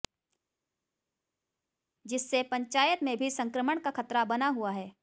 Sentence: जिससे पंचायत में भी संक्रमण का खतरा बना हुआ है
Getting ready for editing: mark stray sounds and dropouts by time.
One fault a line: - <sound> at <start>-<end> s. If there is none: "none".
none